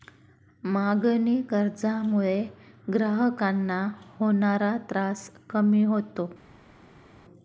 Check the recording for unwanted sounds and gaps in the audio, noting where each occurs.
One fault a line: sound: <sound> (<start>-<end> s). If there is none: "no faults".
no faults